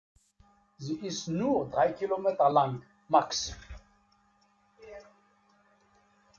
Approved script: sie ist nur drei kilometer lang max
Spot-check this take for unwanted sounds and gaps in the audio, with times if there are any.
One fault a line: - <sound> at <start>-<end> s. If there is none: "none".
none